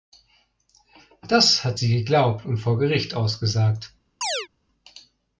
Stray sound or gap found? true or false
true